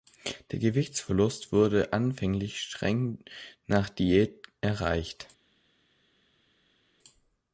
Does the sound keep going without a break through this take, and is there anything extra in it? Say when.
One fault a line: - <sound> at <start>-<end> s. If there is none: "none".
none